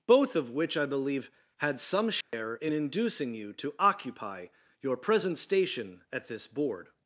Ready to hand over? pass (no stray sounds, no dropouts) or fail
fail